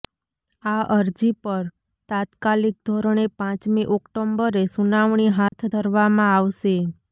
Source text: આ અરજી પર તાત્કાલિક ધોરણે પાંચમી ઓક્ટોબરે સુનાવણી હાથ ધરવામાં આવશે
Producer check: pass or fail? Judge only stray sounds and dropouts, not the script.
fail